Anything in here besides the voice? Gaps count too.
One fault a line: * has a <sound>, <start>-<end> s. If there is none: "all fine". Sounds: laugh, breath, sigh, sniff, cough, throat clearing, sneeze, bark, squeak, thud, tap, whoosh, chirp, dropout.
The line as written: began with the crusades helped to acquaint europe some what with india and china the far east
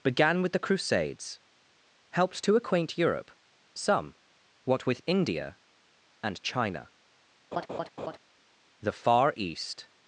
* has a laugh, 7.5-8.2 s